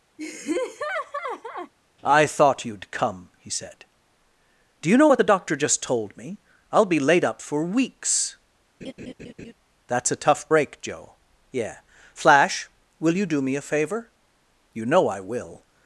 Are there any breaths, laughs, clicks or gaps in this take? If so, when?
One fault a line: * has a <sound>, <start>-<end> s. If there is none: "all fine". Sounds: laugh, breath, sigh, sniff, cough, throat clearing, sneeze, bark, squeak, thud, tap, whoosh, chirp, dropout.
* has a laugh, 0.2-1.7 s
* has a laugh, 8.8-9.5 s